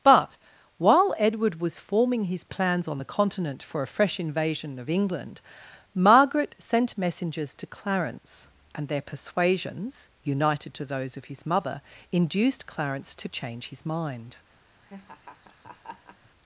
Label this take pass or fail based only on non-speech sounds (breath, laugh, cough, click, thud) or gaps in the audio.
fail